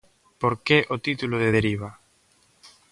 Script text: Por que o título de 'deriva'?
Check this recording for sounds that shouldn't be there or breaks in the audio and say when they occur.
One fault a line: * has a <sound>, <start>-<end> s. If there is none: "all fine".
all fine